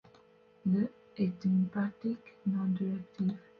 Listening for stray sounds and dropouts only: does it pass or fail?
pass